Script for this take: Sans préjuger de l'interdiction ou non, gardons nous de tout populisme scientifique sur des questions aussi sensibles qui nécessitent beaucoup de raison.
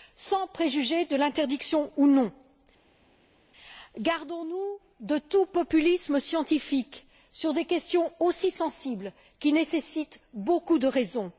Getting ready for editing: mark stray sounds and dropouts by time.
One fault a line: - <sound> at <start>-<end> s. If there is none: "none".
none